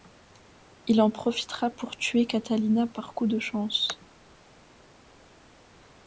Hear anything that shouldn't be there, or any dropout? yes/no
no